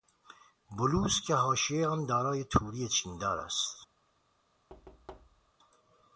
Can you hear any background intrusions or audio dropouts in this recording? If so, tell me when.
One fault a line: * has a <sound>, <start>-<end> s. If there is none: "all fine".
* has a thud, 4.7-5.5 s